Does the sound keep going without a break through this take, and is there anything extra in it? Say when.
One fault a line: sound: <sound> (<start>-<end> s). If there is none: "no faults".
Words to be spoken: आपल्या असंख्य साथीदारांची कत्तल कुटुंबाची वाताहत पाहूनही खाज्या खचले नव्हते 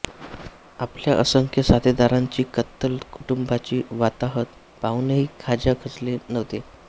sound: dropout (3.2-3.2 s)